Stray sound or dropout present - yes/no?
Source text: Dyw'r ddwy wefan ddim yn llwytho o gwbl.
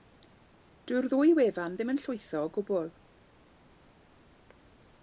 no